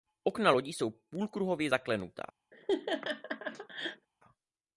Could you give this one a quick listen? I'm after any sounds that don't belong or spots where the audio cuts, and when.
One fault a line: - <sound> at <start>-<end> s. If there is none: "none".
- laugh at 2.5-4.1 s